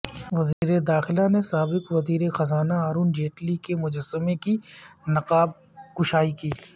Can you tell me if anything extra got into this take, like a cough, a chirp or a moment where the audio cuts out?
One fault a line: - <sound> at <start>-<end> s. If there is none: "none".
- dropout at 0.5-0.6 s